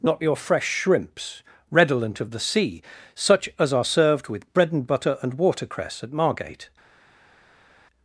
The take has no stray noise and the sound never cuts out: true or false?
true